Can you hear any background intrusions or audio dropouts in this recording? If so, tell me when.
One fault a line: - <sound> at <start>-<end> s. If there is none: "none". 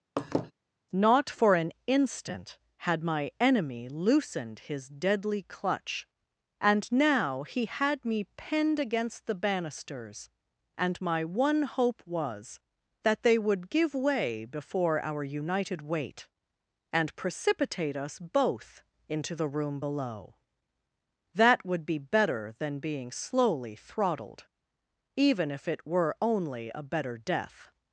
- laugh at 0.2-0.5 s